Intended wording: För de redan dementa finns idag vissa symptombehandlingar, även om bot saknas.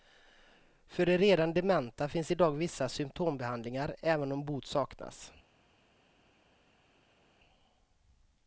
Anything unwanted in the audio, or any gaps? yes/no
no